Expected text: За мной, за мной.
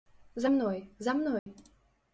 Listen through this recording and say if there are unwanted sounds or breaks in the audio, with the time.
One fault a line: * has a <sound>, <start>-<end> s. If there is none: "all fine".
* has a dropout, 1.4-1.5 s